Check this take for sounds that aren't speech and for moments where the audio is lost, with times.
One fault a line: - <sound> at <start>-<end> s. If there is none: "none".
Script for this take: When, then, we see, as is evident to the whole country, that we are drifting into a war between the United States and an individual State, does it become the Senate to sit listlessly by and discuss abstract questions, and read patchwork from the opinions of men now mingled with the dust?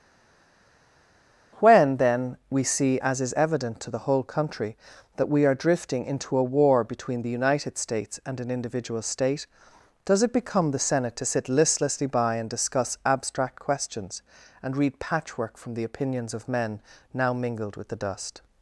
none